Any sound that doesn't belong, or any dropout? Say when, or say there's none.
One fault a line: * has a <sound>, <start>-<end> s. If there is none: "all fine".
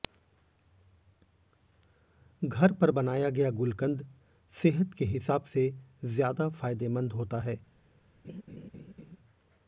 * has a laugh, 8.2-9.2 s